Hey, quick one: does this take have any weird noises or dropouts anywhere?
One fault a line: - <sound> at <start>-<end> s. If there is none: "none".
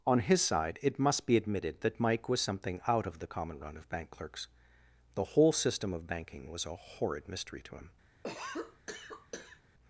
- cough at 8.2-9.6 s